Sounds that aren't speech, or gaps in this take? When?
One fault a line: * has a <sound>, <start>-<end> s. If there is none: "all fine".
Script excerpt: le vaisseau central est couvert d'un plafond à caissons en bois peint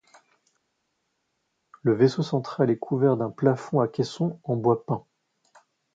all fine